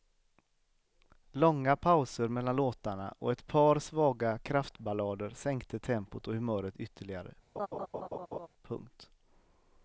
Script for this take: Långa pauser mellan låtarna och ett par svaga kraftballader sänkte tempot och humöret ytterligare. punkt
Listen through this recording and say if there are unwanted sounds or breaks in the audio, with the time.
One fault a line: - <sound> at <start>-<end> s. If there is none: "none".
- laugh at 7.6-8.5 s